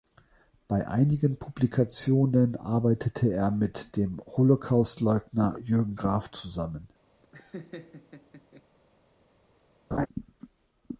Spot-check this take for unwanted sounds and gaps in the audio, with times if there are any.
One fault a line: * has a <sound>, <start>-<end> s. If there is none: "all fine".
* has a laugh, 7.2-8.6 s
* has a laugh, 9.9-10.1 s